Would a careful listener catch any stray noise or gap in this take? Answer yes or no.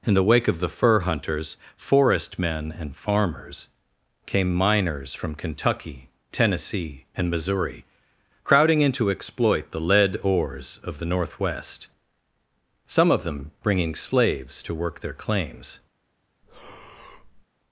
yes